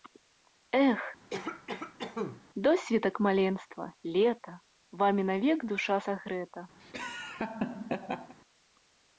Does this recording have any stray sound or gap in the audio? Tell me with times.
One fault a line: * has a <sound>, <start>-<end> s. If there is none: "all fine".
* has a cough, 1.3-2.4 s
* has a laugh, 6.8-8.3 s